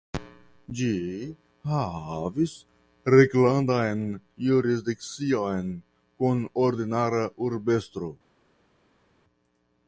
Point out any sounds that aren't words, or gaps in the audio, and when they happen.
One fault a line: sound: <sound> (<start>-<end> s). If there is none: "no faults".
no faults